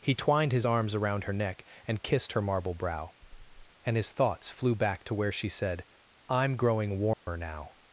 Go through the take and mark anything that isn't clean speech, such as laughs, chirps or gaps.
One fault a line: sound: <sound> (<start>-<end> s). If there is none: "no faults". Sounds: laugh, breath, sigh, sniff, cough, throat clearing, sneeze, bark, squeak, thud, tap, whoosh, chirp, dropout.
sound: dropout (7.1-7.3 s)